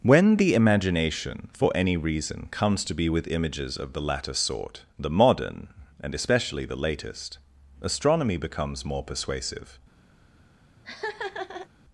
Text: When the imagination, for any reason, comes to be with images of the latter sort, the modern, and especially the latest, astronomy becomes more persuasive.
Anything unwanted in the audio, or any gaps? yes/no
yes